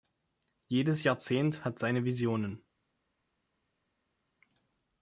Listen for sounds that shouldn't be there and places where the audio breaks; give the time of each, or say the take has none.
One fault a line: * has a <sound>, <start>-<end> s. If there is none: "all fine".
all fine